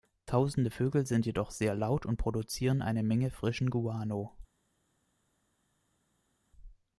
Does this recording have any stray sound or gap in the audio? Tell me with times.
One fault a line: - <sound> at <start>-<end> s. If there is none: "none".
none